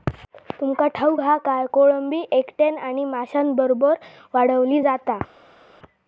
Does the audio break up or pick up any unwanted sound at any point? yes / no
no